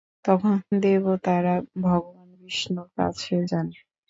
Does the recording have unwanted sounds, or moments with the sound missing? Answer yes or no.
no